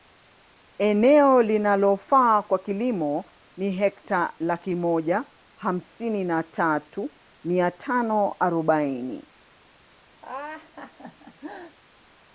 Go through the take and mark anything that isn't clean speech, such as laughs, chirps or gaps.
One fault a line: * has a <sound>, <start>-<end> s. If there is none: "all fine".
* has a laugh, 10.2-11.8 s